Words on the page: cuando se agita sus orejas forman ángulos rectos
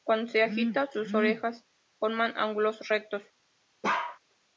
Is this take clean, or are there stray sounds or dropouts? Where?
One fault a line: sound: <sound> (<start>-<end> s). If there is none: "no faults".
sound: bark (3.8-4.2 s)